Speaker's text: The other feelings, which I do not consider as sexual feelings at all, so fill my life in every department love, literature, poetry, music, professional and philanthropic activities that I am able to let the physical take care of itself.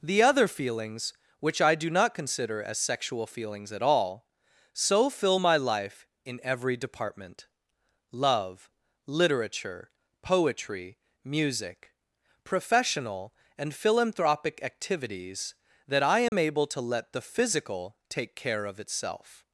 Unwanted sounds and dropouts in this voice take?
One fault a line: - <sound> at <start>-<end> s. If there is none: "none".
- dropout at 16.3-16.3 s